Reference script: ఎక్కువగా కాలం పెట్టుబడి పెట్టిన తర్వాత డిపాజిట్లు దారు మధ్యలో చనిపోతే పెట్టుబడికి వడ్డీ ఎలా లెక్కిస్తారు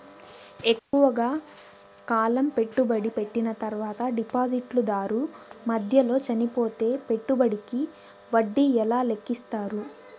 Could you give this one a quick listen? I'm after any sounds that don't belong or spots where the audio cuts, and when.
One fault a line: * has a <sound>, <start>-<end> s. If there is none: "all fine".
* has a dropout, 0.8-0.9 s